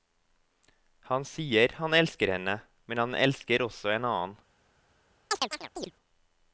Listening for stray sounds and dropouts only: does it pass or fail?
fail